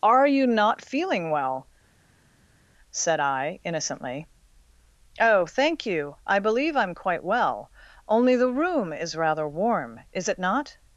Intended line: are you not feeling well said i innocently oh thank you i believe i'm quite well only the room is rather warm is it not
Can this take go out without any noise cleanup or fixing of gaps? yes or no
yes